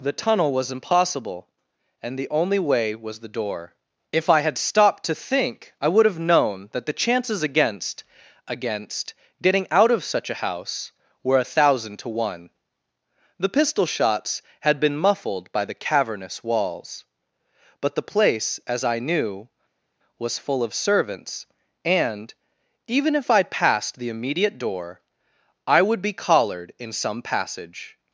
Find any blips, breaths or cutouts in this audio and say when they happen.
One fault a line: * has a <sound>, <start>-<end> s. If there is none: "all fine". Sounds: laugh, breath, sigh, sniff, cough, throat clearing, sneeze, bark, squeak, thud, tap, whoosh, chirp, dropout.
all fine